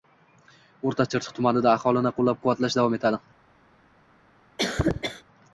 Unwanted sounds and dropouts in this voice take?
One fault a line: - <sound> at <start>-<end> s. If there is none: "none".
- cough at 4.6-5.2 s